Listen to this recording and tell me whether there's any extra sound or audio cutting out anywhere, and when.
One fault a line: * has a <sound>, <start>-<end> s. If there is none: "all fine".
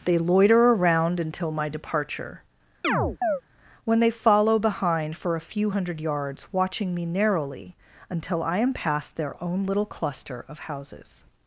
* has a chirp, 2.8-3.4 s